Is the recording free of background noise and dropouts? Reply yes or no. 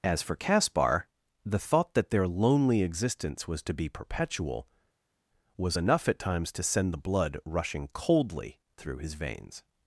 yes